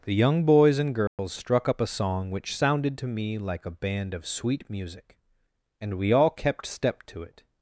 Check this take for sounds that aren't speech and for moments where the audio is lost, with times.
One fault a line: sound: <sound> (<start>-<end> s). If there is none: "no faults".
sound: dropout (1.1-1.2 s)